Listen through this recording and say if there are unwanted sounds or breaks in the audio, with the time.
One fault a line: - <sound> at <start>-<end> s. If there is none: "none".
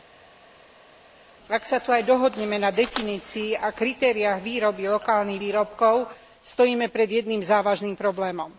none